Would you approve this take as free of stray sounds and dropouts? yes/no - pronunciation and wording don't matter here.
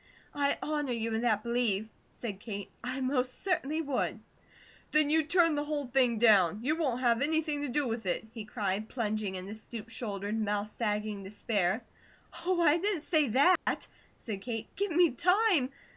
no